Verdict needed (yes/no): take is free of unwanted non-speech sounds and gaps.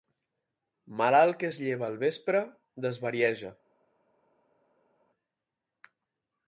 yes